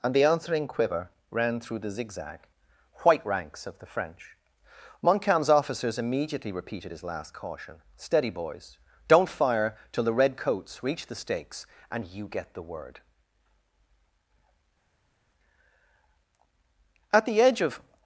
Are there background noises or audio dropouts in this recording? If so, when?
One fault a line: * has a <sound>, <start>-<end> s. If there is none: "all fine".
all fine